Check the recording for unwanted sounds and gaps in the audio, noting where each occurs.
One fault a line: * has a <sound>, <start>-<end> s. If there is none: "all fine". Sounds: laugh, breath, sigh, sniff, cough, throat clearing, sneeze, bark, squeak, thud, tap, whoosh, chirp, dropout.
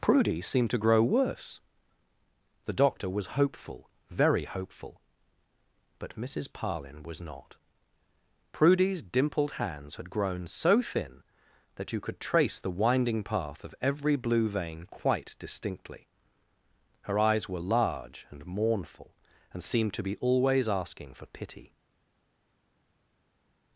all fine